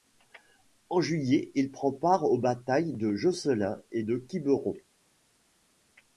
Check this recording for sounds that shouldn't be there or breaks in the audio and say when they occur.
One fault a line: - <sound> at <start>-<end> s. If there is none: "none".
none